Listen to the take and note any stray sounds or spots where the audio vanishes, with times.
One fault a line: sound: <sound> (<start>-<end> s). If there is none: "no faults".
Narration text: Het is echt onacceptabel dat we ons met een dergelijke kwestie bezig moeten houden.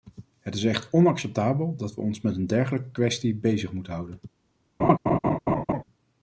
sound: laugh (4.8-5.8 s)